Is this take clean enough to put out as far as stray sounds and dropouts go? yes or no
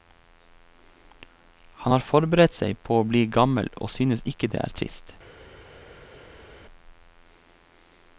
yes